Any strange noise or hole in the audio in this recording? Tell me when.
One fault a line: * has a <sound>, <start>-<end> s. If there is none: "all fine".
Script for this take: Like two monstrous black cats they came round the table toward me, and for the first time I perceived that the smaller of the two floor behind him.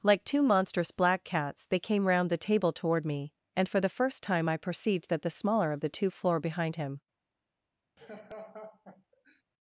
* has a laugh, 8.0-9.4 s